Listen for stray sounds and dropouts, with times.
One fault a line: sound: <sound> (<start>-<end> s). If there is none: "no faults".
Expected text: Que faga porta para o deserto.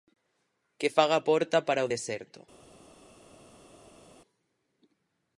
no faults